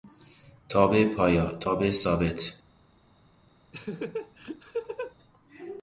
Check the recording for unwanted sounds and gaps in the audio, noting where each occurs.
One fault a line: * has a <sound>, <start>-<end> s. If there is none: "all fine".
* has a laugh, 3.7-5.1 s